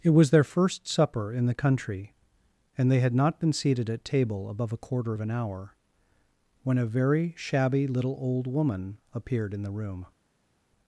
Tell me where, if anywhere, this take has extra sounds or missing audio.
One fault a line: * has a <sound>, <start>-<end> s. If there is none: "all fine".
all fine